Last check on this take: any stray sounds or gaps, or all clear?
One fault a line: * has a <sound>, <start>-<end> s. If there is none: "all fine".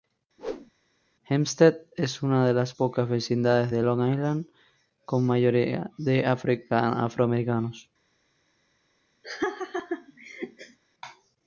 * has a whoosh, 0.4-0.7 s
* has a laugh, 9.2-10.8 s